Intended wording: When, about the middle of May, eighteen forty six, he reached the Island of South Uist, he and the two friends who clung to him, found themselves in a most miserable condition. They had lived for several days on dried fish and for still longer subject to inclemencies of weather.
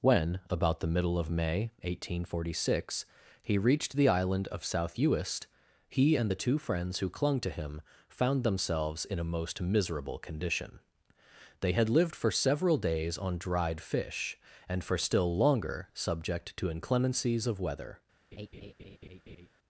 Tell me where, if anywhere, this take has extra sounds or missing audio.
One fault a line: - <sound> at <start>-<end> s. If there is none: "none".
- laugh at 18.3-19.5 s